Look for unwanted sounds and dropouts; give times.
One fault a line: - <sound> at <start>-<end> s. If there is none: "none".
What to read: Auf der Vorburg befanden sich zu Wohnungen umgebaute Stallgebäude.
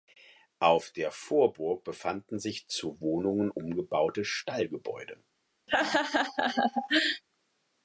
- laugh at 5.7-7.2 s